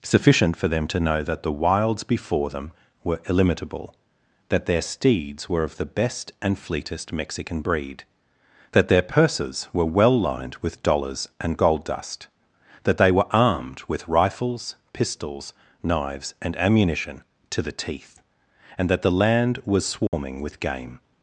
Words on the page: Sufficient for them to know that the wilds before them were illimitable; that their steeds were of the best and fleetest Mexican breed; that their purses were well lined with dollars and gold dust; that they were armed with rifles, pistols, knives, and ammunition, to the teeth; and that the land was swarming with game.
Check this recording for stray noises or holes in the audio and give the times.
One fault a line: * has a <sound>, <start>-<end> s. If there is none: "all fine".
* has a dropout, 20.1-20.1 s